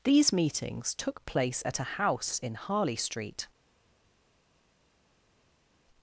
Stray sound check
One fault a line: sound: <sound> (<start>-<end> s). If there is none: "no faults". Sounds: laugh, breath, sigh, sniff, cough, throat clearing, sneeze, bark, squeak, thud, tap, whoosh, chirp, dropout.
no faults